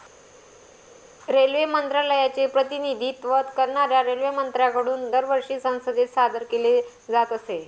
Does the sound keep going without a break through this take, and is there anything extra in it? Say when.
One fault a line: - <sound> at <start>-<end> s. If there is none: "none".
none